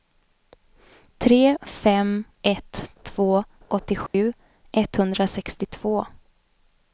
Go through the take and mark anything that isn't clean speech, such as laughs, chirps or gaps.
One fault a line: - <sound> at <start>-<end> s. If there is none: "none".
- dropout at 4.1-4.1 s